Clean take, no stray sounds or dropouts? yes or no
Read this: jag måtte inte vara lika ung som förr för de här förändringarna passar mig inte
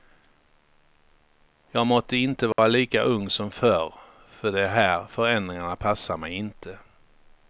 no